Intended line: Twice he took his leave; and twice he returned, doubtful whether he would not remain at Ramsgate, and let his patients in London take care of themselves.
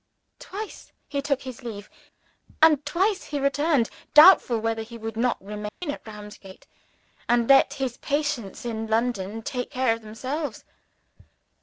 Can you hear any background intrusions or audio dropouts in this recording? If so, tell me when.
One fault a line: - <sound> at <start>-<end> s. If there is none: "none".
- dropout at 5.7-5.8 s